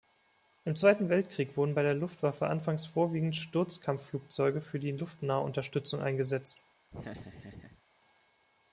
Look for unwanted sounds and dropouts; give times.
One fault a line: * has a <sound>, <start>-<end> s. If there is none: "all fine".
* has a laugh, 6.9-7.8 s